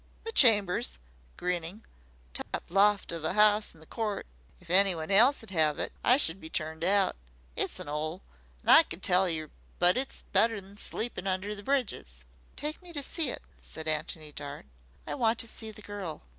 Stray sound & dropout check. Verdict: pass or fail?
fail